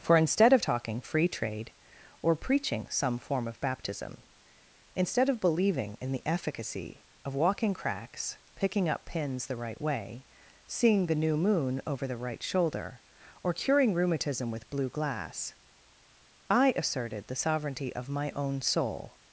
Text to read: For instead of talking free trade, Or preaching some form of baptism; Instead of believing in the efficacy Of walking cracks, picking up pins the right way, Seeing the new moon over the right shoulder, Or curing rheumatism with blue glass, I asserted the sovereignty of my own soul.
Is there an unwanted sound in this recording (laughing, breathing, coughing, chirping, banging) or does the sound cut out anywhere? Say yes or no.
no